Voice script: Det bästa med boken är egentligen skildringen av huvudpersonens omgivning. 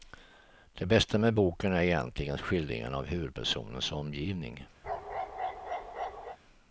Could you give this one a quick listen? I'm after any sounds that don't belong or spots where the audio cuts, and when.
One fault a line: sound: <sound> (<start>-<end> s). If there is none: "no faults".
sound: bark (4.8-6.4 s)